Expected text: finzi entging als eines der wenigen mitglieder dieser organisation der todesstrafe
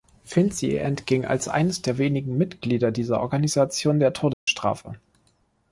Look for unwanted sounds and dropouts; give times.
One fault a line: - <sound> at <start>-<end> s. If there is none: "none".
- dropout at 4.3-4.5 s